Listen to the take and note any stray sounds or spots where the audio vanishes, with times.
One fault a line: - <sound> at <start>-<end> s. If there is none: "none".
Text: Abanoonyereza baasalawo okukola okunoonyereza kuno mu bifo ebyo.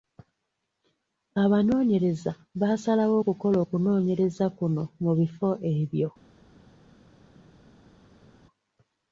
none